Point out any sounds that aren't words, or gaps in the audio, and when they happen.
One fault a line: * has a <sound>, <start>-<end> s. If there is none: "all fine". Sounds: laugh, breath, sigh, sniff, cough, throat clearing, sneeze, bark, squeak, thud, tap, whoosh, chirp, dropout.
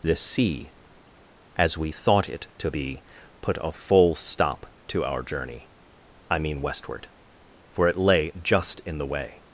all fine